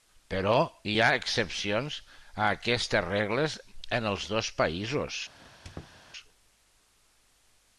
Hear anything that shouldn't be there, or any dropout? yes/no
yes